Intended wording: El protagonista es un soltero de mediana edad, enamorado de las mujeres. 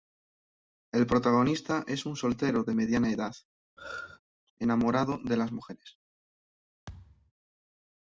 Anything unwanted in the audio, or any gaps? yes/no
yes